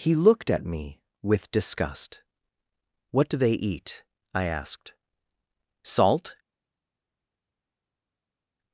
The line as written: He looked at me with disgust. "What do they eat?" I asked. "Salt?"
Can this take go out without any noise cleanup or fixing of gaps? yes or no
yes